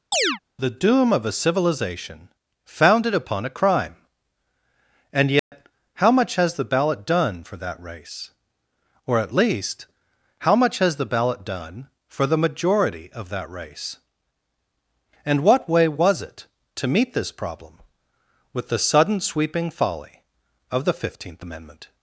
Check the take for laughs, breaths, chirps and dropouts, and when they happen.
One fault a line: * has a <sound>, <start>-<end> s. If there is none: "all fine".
* has a chirp, 0.1-0.4 s
* has a dropout, 5.4-5.5 s